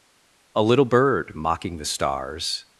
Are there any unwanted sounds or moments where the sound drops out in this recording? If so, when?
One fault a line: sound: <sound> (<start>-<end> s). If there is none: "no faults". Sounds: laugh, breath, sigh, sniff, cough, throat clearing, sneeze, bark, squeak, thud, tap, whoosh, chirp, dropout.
no faults